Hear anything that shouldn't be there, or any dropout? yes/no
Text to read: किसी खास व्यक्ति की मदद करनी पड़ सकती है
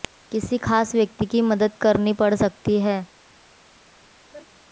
yes